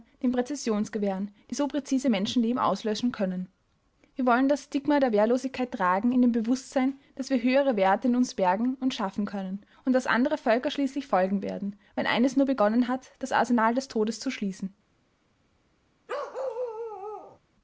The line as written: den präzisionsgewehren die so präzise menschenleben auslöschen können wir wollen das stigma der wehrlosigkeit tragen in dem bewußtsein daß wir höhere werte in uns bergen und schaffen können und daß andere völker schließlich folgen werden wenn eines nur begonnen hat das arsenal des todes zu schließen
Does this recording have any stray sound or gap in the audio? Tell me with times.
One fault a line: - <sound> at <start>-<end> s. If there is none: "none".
- bark at 16.1-17.4 s